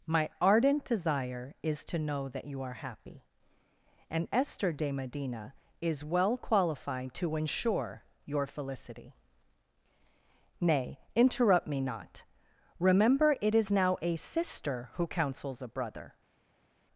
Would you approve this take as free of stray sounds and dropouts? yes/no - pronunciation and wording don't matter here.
yes